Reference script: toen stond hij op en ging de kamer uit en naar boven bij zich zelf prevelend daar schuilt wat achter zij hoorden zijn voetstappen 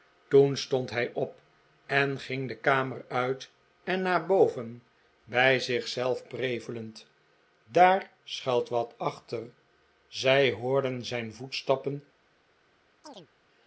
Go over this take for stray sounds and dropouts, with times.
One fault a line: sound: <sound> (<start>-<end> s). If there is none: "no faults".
sound: chirp (13.0-13.3 s)